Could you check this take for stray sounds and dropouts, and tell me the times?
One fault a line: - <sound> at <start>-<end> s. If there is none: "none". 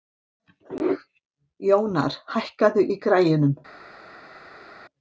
none